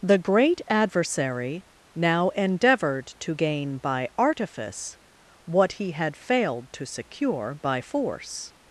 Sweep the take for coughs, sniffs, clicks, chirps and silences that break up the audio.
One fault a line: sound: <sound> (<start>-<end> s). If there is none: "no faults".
no faults